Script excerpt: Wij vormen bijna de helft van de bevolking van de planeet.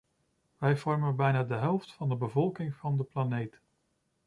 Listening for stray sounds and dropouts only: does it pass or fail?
pass